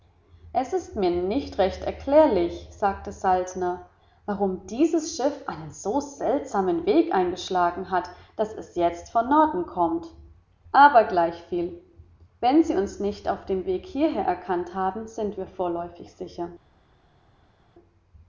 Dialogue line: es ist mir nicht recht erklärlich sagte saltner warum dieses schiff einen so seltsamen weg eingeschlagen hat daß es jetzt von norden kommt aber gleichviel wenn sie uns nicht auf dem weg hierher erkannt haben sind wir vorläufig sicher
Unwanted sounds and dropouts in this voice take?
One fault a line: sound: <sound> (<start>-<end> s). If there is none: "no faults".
no faults